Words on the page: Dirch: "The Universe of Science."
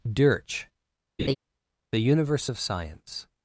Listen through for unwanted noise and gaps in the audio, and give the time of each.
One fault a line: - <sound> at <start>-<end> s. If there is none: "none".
- laugh at 1.2-1.3 s